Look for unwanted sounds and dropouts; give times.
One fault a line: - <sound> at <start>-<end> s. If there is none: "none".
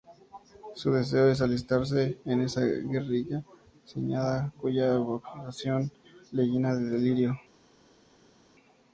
none